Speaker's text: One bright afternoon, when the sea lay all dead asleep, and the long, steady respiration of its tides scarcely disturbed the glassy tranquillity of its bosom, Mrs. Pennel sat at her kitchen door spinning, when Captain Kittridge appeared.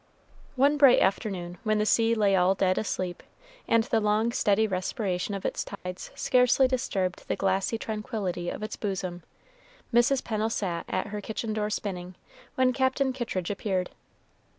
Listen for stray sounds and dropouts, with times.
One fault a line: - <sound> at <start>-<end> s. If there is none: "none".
- dropout at 5.7-5.9 s